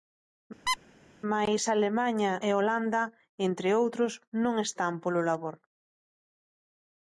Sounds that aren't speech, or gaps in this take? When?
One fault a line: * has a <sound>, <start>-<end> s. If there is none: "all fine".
* has a squeak, 0.7-0.8 s